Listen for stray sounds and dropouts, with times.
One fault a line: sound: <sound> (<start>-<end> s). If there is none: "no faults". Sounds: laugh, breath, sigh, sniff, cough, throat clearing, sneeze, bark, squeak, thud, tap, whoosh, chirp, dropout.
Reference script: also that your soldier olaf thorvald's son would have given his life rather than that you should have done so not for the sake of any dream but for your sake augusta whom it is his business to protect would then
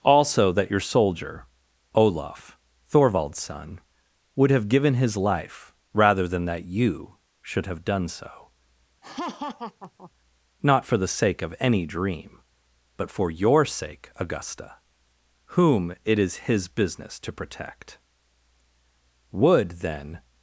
sound: laugh (9.0-10.1 s)